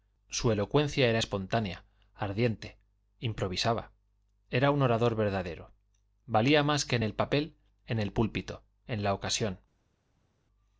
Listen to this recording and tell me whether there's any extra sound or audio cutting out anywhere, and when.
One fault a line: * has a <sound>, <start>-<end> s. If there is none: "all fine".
all fine